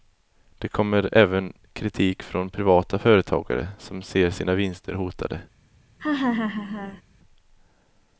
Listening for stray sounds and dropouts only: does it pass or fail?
fail